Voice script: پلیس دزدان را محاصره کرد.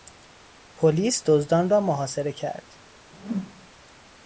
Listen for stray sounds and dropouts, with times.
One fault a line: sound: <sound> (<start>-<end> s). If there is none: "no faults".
sound: whoosh (3.1-3.7 s)